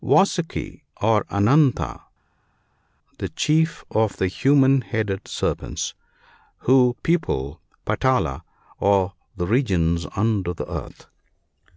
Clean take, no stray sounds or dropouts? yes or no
yes